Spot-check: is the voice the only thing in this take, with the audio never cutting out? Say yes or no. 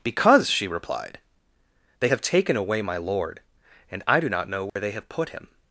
no